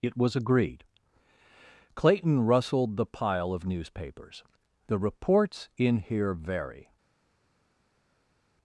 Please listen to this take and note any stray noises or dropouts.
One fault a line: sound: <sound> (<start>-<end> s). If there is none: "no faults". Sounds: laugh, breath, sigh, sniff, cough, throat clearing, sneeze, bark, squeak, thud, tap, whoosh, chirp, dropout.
no faults